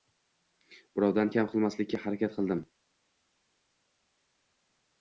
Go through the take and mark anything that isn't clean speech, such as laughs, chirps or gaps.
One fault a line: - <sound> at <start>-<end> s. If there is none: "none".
none